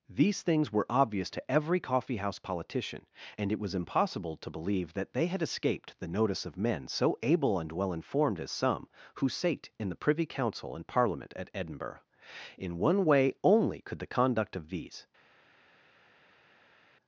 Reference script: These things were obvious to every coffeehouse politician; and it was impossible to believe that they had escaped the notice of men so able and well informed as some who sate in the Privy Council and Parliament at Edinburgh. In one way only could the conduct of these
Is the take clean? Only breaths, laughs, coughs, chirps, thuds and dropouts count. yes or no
yes